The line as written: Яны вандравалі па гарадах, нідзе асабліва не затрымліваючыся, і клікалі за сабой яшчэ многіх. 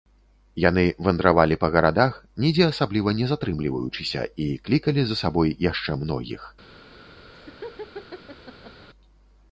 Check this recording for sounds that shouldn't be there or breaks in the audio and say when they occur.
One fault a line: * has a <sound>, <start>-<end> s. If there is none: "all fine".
* has a laugh, 7.3-8.9 s